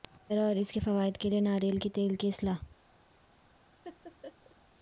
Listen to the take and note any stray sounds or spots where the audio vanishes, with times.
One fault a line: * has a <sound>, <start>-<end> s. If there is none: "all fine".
* has a laugh, 3.8-4.6 s